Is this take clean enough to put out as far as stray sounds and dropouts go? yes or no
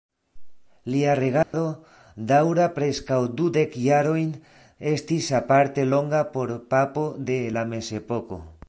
no